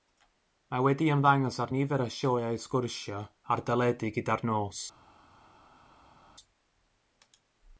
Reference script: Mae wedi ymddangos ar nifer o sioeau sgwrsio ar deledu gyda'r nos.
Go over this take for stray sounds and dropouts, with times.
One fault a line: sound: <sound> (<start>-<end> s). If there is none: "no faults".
no faults